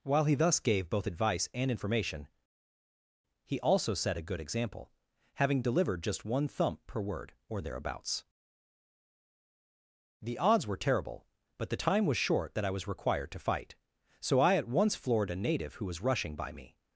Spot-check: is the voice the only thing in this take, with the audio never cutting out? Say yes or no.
yes